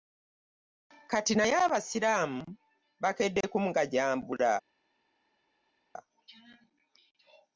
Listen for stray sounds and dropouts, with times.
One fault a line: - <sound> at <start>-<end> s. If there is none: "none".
none